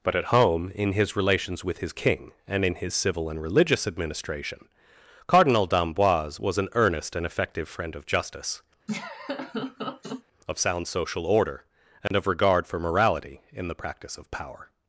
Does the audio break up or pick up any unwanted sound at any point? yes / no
yes